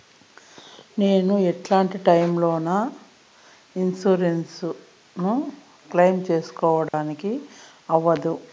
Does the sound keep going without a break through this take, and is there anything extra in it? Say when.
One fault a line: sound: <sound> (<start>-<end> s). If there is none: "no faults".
sound: dropout (6.9-6.9 s)